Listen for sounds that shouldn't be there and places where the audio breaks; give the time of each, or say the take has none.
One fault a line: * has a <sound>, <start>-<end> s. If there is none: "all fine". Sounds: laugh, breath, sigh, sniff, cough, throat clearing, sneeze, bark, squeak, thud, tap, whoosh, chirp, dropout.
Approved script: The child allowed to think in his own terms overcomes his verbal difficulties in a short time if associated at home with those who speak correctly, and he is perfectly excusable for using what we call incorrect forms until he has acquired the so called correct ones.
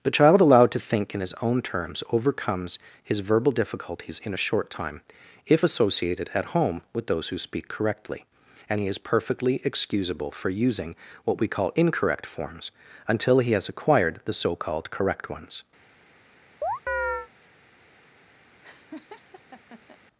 * has a chirp, 16.6-17.3 s
* has a laugh, 18.6-20.0 s